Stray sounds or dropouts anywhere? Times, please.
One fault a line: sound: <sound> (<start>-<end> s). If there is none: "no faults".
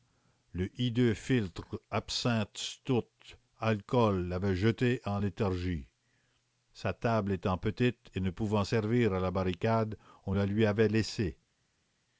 no faults